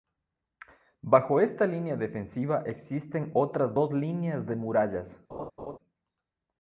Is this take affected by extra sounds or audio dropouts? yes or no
yes